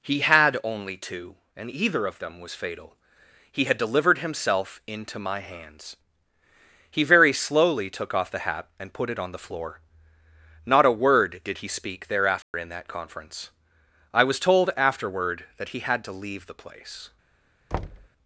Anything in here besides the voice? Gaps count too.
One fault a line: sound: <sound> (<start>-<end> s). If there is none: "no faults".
sound: dropout (12.4-12.5 s)
sound: thud (17.7-18.1 s)